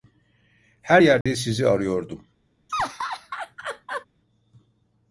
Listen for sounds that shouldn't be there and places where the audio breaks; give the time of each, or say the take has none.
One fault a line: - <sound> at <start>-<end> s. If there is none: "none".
- dropout at 1.2-1.3 s
- laugh at 2.7-4.1 s